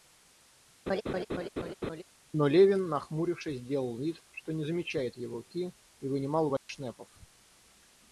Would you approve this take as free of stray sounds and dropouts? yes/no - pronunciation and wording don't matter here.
no